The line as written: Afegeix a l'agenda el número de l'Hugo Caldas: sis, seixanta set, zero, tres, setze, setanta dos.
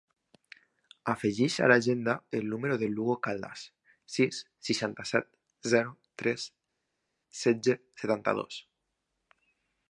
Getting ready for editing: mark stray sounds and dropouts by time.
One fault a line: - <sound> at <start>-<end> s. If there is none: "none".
none